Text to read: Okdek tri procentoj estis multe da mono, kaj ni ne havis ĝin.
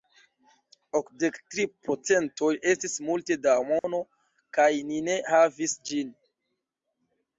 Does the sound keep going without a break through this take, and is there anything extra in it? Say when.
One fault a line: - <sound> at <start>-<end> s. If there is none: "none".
- dropout at 3.8-3.8 s